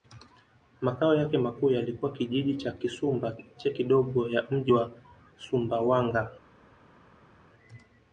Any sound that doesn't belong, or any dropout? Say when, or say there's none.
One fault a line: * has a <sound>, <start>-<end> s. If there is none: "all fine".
all fine